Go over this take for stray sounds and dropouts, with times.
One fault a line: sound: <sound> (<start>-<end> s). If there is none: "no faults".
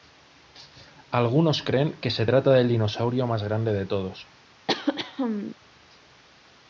sound: throat clearing (4.7-5.6 s)